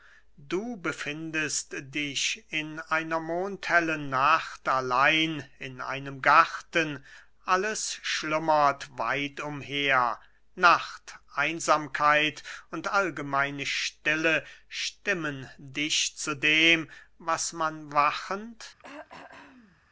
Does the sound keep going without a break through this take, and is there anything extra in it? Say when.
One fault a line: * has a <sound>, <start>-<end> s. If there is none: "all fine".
* has a throat clearing, 18.8-19.8 s